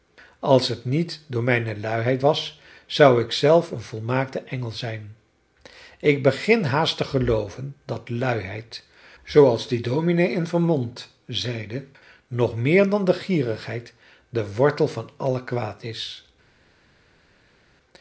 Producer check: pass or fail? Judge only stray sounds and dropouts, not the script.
pass